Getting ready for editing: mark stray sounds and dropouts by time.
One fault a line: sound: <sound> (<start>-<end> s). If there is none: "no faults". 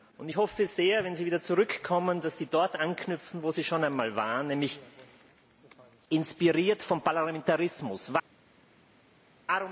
no faults